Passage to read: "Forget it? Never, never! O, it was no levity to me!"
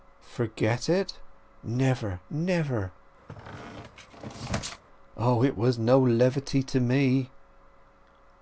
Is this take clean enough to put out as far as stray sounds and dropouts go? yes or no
no